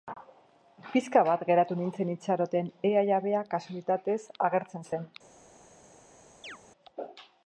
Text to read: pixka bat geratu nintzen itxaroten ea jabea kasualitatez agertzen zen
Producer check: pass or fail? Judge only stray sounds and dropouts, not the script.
fail